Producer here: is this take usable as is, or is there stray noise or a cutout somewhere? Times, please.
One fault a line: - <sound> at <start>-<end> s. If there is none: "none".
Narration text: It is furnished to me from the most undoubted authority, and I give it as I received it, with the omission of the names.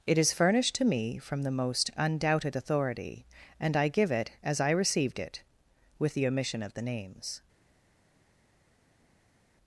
none